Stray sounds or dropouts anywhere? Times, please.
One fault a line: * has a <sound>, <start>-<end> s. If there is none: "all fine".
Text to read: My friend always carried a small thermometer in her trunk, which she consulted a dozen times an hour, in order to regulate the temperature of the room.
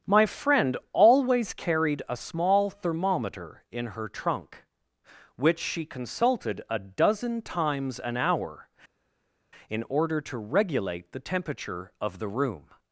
all fine